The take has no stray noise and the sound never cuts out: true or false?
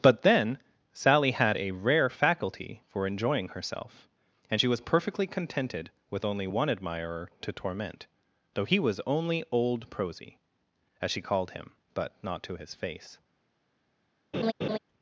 false